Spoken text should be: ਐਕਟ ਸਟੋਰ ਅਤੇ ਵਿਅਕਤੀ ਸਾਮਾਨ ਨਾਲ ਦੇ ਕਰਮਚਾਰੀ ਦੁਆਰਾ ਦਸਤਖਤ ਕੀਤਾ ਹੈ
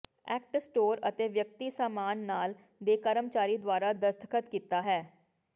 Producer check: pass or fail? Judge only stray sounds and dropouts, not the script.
pass